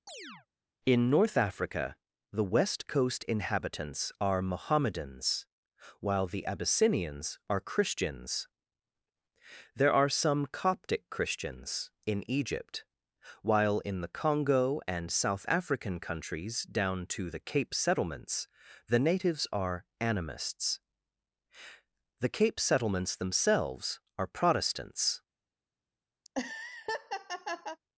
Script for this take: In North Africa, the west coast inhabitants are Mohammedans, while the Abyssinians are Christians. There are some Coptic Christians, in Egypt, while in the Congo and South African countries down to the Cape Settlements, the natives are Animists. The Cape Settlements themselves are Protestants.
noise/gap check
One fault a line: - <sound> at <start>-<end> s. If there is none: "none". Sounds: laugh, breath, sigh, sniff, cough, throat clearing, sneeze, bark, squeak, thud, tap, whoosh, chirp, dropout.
- chirp at 0.1-0.5 s
- laugh at 26.2-27.8 s